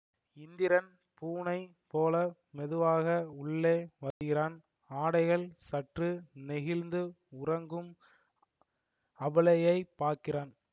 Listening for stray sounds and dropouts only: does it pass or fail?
fail